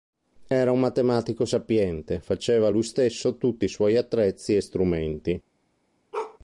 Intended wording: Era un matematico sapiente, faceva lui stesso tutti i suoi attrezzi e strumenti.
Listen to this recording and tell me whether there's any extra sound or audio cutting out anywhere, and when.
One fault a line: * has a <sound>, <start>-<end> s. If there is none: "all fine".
* has a bark, 6.1-6.4 s